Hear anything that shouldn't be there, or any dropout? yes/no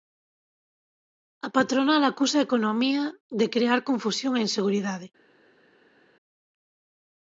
no